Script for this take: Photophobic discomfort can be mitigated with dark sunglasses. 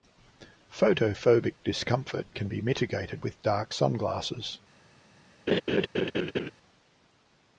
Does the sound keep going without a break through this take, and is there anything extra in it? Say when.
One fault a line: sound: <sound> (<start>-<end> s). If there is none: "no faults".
sound: laugh (5.5-6.5 s)